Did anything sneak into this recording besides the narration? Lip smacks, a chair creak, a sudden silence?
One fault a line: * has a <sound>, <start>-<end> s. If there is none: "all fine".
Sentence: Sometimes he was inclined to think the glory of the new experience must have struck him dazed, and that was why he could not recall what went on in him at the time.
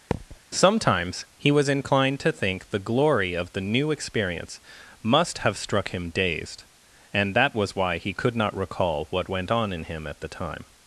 * has a thud, 0.1-0.4 s